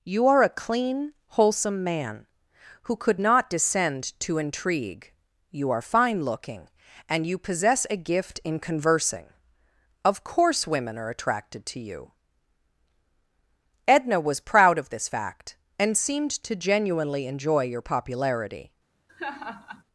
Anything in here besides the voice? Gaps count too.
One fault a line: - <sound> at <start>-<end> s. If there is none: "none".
- laugh at 19.1-19.8 s